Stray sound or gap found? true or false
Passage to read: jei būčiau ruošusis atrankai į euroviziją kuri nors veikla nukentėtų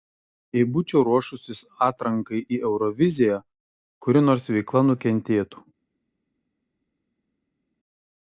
false